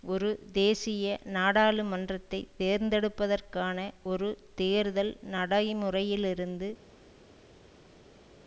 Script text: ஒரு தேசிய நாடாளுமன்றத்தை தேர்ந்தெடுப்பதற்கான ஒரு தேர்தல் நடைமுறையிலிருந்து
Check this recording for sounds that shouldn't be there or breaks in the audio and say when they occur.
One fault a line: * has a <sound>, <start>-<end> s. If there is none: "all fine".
all fine